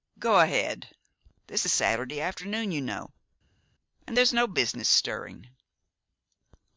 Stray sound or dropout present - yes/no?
no